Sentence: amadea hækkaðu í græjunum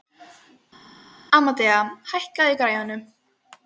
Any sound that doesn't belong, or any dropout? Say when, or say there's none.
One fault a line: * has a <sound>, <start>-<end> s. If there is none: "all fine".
all fine